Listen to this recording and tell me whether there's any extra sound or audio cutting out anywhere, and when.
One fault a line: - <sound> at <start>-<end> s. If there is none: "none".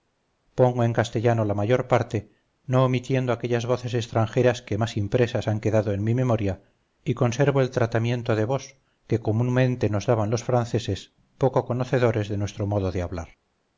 none